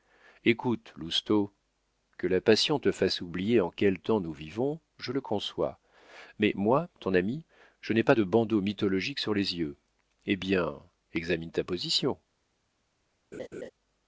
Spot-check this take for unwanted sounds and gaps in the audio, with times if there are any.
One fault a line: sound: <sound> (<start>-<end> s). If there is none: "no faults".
sound: laugh (13.3-13.7 s)